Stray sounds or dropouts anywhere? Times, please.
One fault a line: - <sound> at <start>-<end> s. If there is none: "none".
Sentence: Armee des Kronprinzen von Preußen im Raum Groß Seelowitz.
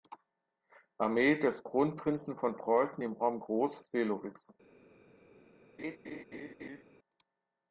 - laugh at 5.8-6.8 s